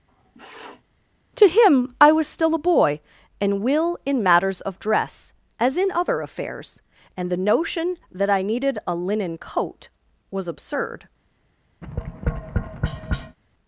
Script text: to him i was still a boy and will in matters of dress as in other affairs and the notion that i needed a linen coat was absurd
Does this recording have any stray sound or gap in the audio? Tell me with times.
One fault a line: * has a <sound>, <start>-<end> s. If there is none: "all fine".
* has a sniff, 0.1-0.8 s
* has a tap, 11.8-13.4 s